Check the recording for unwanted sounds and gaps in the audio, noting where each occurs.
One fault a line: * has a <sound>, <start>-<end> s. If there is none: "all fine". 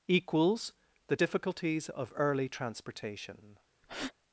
* has a breath, 3.8-4.1 s